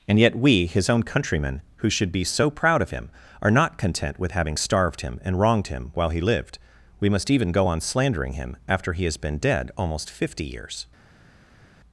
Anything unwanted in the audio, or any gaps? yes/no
no